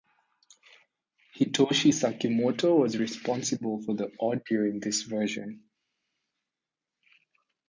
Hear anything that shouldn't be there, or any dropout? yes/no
no